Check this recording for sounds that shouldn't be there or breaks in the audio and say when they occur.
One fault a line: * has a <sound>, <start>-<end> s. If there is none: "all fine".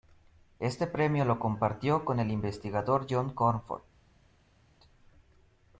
all fine